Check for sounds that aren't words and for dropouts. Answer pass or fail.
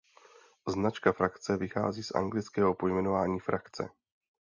pass